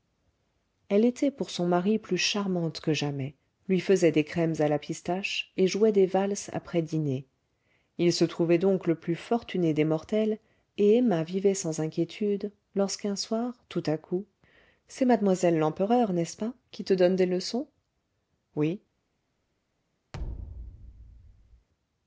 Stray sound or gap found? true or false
true